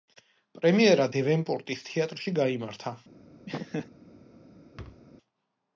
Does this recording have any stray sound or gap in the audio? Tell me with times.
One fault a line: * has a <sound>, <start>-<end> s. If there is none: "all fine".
* has a laugh, 3.5-3.9 s
* has a thud, 4.8-5.0 s